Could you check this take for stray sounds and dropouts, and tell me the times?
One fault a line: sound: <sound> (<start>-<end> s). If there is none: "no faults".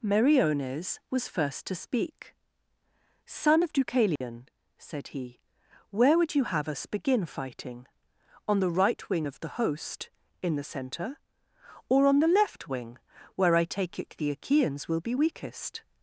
sound: dropout (4.2-4.2 s)